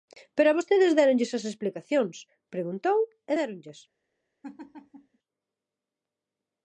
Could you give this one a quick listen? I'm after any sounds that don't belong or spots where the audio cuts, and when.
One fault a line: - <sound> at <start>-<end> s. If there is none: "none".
- laugh at 4.4-5.2 s